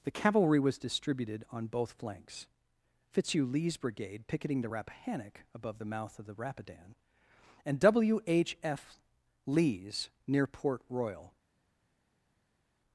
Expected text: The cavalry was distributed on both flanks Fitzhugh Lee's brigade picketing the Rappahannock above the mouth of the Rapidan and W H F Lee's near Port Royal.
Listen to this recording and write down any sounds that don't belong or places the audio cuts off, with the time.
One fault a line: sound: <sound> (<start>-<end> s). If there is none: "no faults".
no faults